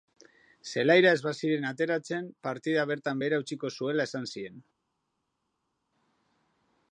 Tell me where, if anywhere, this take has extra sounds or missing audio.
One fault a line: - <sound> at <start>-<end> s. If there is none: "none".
none